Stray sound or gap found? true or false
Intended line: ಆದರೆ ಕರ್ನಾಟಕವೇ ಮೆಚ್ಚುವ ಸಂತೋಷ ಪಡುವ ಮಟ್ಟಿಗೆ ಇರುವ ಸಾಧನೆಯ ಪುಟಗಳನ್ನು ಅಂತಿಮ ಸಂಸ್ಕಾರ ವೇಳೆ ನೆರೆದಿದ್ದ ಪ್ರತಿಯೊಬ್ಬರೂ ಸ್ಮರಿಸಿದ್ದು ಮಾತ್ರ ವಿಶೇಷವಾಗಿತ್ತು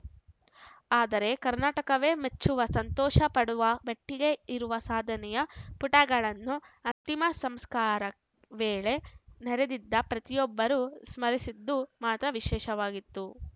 true